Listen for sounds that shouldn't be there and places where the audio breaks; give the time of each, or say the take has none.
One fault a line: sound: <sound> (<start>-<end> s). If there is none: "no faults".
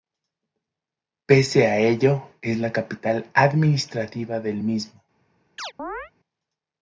sound: chirp (5.6-6.1 s)